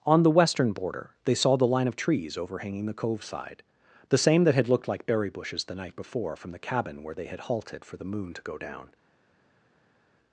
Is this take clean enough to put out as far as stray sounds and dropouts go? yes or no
yes